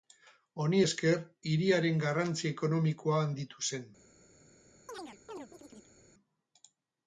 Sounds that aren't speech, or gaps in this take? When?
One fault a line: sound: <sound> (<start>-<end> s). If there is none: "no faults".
sound: chirp (4.9-5.9 s)